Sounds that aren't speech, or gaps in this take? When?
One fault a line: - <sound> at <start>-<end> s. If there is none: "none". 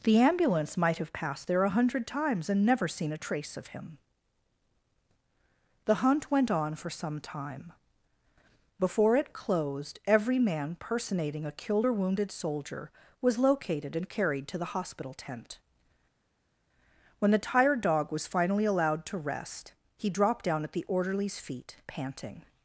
none